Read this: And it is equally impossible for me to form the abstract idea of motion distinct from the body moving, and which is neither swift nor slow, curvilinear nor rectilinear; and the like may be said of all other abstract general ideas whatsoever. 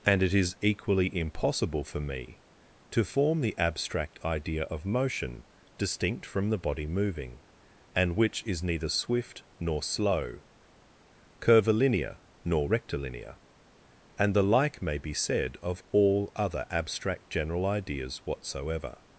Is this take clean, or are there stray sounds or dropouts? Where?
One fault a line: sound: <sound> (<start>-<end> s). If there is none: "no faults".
no faults